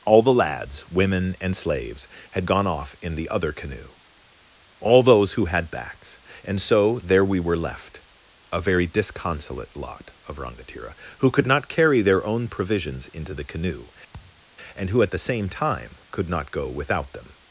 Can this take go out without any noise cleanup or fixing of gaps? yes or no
no